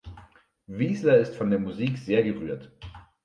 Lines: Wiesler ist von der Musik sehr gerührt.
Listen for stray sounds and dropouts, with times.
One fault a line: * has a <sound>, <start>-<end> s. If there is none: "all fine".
all fine